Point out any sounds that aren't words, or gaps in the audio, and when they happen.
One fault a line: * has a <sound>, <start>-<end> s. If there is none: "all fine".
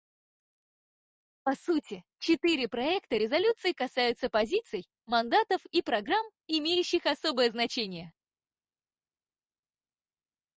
all fine